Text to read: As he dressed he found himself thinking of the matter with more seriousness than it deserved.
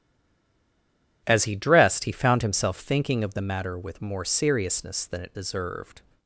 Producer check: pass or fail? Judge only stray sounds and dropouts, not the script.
pass